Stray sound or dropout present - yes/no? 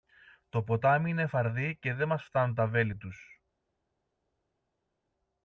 no